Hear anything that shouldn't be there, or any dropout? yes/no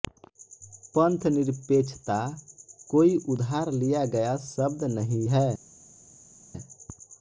no